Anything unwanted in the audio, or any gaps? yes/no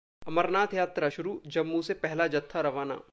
no